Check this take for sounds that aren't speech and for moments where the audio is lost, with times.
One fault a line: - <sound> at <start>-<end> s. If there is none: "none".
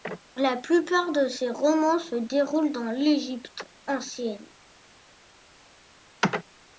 none